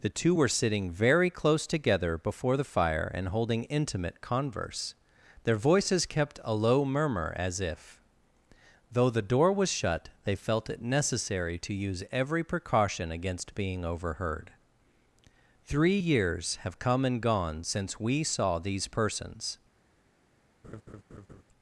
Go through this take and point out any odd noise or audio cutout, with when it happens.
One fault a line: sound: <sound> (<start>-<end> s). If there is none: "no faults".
sound: laugh (20.6-21.4 s)